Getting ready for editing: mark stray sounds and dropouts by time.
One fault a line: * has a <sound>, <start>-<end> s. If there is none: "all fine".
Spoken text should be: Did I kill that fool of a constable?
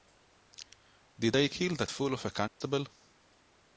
* has a dropout, 2.5-2.6 s